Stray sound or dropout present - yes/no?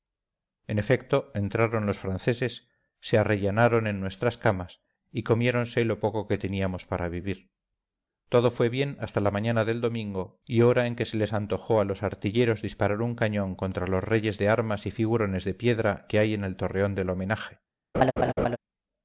yes